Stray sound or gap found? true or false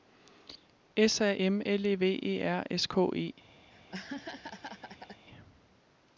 true